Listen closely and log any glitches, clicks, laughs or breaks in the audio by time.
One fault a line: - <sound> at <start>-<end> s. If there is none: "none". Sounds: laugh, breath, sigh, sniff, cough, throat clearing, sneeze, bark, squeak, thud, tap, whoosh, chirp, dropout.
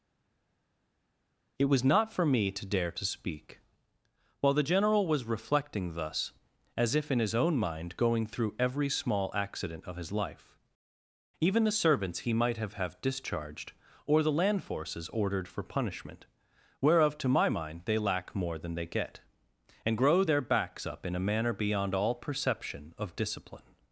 none